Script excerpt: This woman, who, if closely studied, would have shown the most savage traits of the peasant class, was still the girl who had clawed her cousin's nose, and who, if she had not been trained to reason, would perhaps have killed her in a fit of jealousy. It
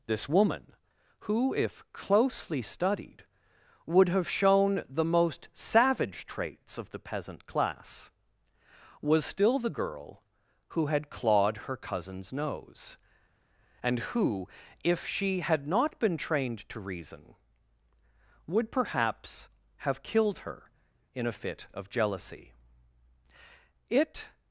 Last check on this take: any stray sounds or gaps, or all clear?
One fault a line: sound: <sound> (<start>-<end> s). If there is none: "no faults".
no faults